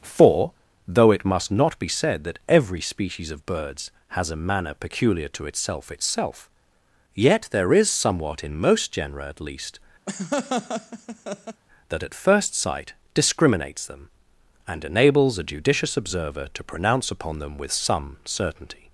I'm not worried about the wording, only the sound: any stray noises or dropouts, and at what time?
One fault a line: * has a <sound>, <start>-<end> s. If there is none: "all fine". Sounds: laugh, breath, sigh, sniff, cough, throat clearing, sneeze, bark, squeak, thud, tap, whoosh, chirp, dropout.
* has a laugh, 10.1-11.6 s